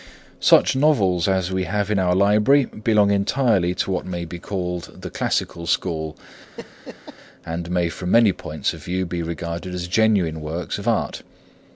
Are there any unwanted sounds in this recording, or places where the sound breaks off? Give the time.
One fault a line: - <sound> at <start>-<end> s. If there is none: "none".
- laugh at 6.6-7.2 s